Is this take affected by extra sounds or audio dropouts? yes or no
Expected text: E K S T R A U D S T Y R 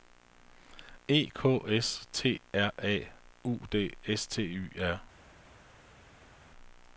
no